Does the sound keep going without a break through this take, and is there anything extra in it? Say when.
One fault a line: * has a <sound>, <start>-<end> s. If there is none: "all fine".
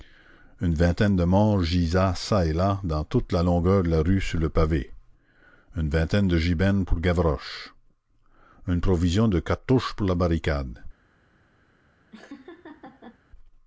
* has a laugh, 12.1-13.2 s